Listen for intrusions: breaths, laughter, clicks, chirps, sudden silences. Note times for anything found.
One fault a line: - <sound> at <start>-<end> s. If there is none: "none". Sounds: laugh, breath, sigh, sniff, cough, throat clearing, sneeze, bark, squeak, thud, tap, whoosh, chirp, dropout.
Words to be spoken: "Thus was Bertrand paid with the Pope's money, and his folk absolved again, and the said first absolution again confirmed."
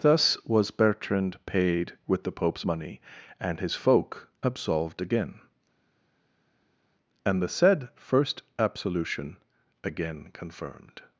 none